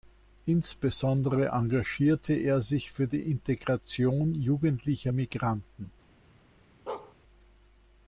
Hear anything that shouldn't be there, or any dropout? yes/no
yes